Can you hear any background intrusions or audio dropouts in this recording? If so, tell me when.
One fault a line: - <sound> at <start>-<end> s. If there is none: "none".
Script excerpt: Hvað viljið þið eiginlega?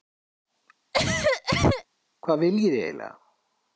- cough at 0.9-1.8 s